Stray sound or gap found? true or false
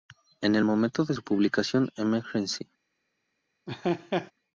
true